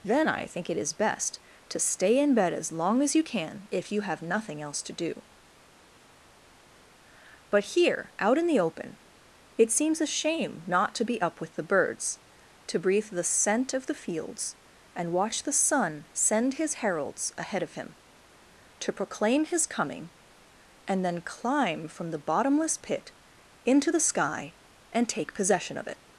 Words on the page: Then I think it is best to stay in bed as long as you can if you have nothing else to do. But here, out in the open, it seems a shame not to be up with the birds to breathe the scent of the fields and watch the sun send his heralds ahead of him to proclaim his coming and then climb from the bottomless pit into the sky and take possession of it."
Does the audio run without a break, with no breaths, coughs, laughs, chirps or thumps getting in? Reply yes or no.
yes